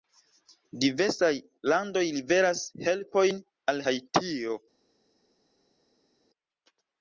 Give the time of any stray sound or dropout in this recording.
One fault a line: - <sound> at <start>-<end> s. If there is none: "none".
none